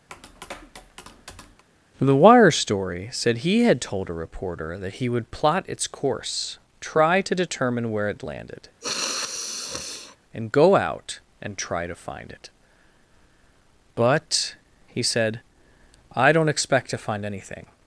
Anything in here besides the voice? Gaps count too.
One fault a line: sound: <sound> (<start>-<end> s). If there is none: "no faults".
sound: tap (0.1-1.6 s)
sound: sniff (8.8-10.2 s)